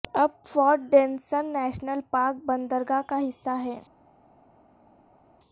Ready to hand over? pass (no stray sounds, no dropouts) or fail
pass